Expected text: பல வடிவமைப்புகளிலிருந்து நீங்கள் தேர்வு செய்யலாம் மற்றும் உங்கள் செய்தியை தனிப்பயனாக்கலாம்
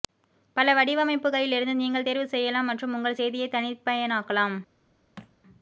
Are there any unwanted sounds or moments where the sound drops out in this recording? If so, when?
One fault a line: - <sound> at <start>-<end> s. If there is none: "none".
- thud at 5.2-5.3 s